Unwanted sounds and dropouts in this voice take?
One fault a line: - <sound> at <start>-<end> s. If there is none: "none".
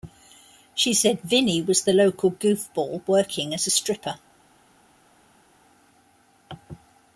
none